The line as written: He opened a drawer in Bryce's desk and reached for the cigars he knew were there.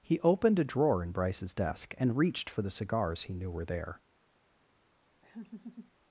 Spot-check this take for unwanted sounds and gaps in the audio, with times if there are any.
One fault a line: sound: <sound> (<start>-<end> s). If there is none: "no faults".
sound: laugh (5.2-5.9 s)